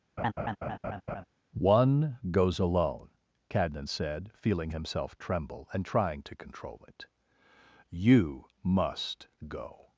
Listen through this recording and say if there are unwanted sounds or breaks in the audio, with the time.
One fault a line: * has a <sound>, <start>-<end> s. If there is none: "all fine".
* has a laugh, 0.2-1.2 s